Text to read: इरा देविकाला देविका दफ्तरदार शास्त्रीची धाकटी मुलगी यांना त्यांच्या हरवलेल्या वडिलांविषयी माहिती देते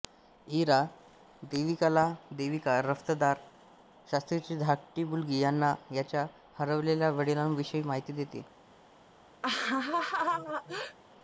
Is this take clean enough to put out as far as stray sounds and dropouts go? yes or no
no